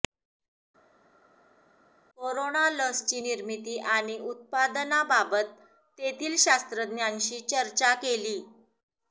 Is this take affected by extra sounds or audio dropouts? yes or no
no